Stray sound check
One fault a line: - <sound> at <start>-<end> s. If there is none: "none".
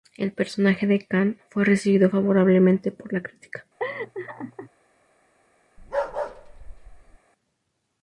- laugh at 3.8-4.7 s
- bark at 5.8-7.2 s